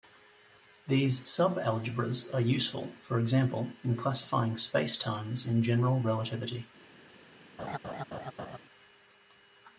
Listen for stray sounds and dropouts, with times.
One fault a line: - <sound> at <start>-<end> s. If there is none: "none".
- laugh at 7.6-8.6 s